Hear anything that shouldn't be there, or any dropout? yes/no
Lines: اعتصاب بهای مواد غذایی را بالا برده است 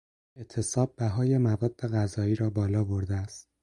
no